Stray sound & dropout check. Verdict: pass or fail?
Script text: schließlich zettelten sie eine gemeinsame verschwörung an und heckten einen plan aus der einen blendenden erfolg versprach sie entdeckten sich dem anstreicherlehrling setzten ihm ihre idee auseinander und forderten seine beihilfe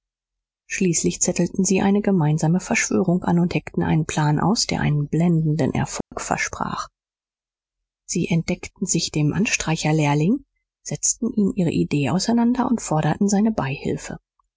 fail